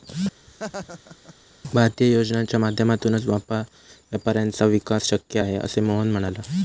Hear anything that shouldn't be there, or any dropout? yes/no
yes